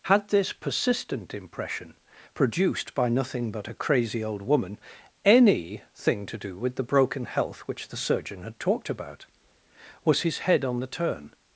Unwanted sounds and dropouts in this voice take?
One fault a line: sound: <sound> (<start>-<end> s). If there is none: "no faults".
no faults